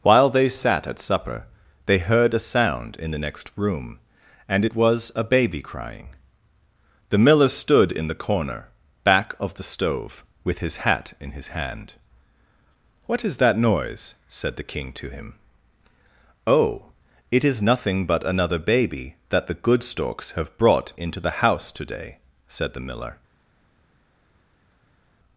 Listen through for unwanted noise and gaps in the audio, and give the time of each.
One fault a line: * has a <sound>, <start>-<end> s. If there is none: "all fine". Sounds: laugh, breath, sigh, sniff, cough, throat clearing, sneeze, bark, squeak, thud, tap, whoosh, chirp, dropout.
all fine